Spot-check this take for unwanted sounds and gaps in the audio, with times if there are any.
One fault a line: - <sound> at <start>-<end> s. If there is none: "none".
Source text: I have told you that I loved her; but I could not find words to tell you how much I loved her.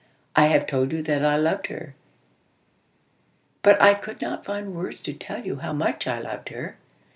none